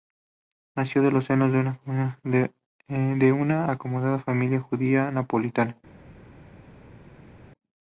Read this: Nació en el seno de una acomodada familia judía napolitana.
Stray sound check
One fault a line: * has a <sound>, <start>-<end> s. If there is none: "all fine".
all fine